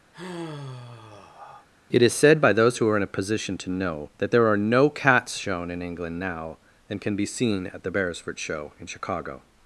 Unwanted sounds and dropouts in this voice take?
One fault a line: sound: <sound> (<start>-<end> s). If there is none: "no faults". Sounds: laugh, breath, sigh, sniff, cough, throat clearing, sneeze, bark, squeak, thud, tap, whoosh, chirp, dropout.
sound: sigh (0.1-1.7 s)